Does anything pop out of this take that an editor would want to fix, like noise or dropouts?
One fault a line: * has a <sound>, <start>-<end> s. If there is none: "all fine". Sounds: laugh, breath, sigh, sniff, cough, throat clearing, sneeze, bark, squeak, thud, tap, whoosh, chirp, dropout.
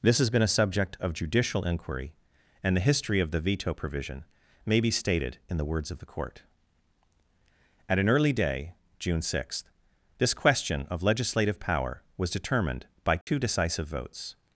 * has a dropout, 13.2-13.3 s